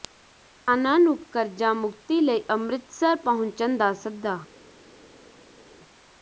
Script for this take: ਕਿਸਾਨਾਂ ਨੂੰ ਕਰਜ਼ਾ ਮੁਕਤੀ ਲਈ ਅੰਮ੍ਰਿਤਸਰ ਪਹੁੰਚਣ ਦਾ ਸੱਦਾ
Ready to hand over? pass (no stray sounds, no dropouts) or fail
pass